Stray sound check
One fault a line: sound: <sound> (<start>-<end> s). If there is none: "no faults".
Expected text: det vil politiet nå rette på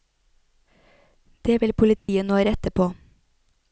sound: dropout (2.0-2.1 s)